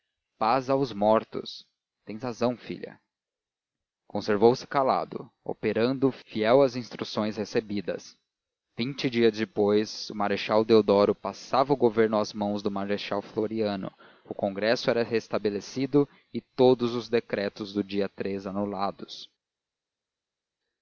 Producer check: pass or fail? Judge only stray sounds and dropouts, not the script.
pass